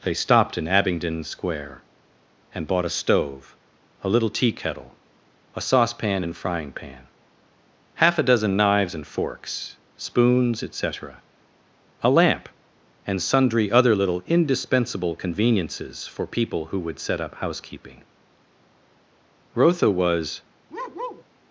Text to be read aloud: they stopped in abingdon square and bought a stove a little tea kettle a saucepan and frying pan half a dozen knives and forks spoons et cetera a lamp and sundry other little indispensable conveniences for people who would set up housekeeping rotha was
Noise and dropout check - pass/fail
fail